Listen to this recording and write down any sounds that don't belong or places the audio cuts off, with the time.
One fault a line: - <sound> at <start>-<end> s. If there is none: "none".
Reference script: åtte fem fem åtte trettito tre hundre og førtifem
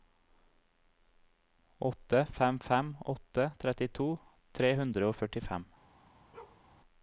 - bark at 6.3-6.6 s